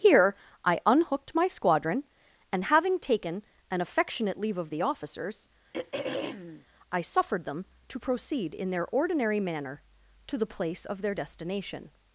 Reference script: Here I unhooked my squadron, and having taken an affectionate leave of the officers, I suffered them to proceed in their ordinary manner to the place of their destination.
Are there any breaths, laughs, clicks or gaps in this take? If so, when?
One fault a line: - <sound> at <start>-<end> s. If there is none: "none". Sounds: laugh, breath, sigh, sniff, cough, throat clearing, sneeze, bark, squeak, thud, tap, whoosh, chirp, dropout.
- throat clearing at 5.7-6.7 s